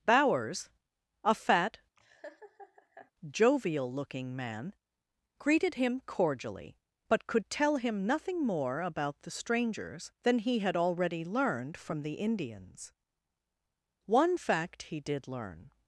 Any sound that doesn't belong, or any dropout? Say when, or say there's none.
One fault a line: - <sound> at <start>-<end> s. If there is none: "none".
- laugh at 2.0-3.1 s